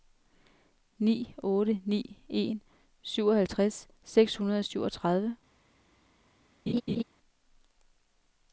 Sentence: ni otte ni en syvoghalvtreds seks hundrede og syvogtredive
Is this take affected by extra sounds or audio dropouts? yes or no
yes